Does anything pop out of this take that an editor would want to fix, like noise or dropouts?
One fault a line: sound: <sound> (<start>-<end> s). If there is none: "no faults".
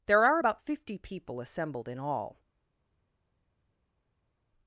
no faults